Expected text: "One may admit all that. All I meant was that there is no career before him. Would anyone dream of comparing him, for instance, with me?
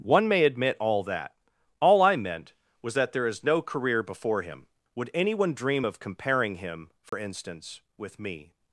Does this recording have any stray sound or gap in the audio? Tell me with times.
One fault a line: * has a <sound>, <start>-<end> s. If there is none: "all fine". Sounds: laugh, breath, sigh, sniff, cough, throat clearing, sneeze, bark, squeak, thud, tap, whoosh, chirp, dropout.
* has a dropout, 7.1-7.1 s